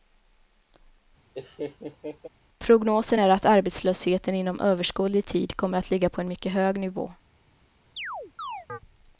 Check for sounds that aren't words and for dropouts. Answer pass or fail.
fail